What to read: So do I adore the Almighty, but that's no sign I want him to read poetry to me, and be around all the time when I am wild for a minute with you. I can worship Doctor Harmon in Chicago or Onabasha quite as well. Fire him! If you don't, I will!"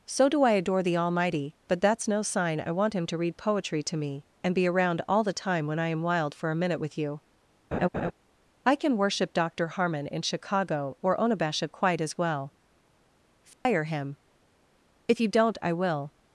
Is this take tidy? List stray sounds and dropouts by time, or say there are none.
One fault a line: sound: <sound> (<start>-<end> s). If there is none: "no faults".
sound: laugh (7.7-8.1 s)
sound: dropout (13.5-13.7 s)